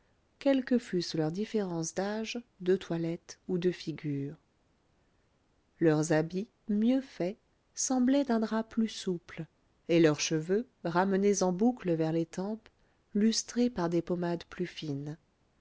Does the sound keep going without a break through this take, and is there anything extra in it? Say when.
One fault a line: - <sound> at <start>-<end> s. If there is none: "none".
none